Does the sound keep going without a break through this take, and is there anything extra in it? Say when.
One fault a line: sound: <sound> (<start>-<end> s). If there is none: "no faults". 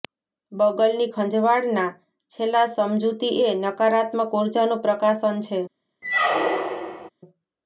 sound: squeak (6.0-7.1 s)